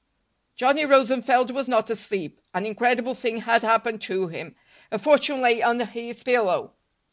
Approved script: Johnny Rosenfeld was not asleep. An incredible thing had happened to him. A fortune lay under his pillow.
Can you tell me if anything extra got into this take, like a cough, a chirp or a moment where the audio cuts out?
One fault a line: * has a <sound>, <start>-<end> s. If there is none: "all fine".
all fine